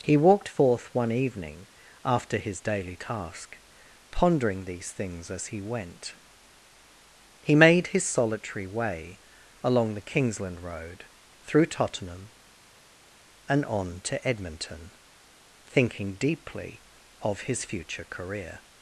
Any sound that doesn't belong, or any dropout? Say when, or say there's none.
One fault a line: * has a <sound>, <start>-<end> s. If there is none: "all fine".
all fine